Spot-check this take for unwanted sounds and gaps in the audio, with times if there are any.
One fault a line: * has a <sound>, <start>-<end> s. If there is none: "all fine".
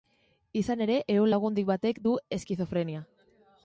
all fine